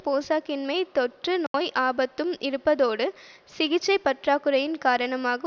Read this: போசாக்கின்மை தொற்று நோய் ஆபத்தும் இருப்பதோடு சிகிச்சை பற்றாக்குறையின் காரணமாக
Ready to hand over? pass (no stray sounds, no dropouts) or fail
fail